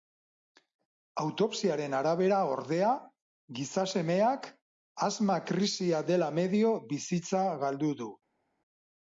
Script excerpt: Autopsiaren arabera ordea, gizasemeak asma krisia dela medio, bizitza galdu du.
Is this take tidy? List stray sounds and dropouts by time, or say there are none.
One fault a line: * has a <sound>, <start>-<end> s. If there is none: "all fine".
all fine